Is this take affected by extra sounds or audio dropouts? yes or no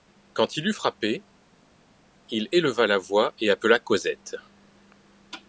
no